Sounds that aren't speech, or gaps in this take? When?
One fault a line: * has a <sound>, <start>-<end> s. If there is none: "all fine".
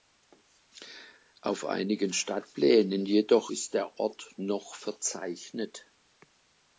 all fine